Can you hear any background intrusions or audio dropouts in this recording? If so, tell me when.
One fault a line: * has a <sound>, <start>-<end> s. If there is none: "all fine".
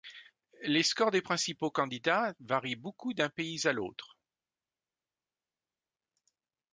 all fine